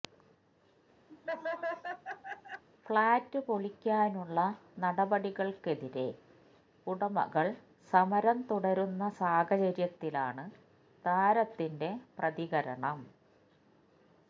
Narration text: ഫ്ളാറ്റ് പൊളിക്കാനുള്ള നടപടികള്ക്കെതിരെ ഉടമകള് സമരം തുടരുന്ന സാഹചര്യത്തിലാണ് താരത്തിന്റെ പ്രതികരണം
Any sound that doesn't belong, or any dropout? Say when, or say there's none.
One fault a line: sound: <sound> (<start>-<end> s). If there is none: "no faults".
sound: laugh (1.1-2.6 s)